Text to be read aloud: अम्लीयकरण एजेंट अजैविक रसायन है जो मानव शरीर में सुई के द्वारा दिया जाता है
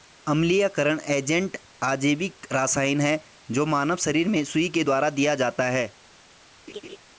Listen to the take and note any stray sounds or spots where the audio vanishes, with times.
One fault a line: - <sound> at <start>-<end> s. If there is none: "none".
- laugh at 6.7-7.0 s